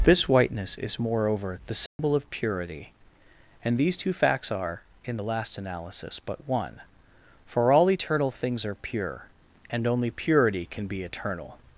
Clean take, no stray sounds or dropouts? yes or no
no